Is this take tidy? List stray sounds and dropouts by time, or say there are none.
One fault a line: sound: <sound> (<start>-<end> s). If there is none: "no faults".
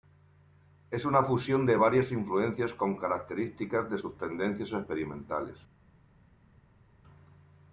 no faults